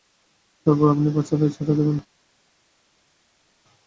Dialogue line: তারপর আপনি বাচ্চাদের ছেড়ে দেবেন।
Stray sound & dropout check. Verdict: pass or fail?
pass